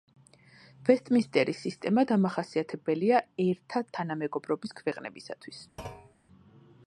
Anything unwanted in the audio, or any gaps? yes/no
yes